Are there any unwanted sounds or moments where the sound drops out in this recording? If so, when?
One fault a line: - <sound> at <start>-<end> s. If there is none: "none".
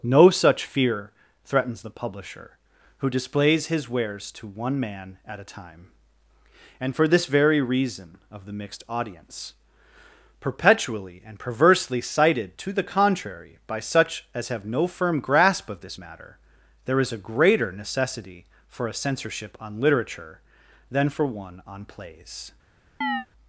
- chirp at 23.0-23.3 s